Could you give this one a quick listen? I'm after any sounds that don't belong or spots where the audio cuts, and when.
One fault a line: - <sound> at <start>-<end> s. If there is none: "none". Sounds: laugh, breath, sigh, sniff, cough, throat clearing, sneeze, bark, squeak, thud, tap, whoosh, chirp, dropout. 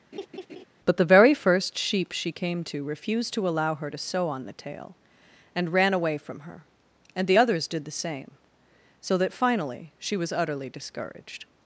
- laugh at 0.1-0.6 s